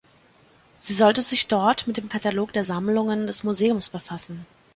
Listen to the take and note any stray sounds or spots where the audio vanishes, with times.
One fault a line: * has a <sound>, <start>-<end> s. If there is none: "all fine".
all fine